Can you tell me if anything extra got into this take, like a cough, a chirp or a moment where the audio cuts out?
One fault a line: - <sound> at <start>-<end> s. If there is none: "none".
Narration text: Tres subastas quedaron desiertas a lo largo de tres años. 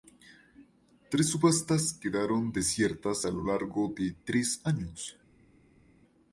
none